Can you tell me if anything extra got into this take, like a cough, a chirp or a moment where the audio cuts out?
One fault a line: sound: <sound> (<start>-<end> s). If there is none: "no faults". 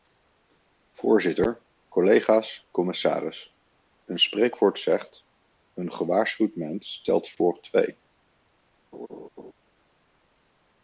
sound: laugh (8.9-9.5 s)